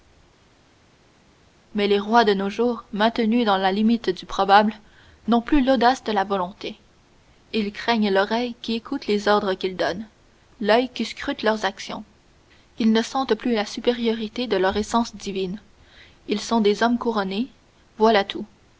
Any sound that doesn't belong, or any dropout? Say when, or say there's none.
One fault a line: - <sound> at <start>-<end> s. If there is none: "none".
none